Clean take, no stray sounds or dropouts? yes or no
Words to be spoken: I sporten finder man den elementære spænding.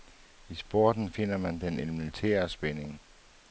yes